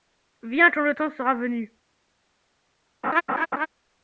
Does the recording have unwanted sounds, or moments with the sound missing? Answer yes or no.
yes